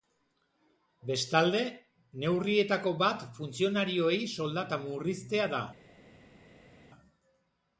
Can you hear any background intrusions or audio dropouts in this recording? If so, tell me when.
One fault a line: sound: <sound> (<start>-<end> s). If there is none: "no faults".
no faults